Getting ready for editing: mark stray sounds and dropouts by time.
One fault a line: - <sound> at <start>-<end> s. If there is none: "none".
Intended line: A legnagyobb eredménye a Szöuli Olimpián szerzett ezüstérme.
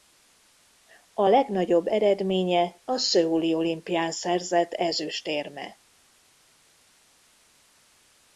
none